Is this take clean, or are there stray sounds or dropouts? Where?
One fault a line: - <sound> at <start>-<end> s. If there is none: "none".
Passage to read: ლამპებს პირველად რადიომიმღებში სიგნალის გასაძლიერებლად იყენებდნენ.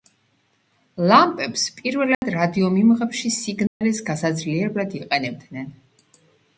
- dropout at 2.1-2.2 s
- dropout at 3.7-3.8 s